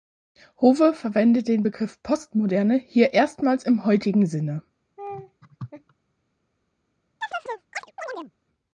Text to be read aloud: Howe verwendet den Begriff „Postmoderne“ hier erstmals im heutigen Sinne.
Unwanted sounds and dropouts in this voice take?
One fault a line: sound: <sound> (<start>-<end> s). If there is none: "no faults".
sound: laugh (5.0-5.9 s)
sound: chirp (7.2-8.3 s)